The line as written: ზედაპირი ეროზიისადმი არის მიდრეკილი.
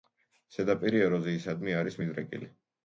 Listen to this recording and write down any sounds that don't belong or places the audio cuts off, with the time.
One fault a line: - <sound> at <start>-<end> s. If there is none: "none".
none